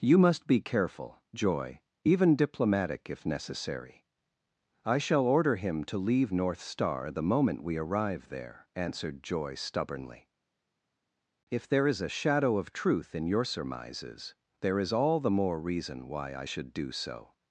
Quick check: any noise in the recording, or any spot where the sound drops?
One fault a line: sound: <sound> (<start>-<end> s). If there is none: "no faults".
no faults